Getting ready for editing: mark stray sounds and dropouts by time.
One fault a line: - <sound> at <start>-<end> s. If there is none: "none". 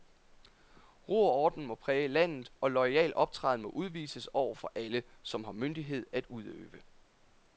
none